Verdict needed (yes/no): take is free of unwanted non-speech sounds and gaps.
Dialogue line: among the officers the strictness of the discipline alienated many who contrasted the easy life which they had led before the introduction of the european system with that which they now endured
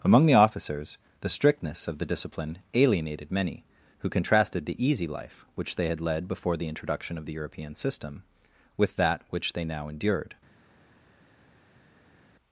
yes